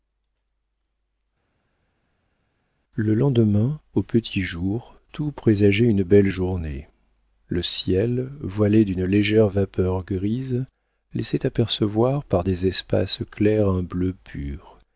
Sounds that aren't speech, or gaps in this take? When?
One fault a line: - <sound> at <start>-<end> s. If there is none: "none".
none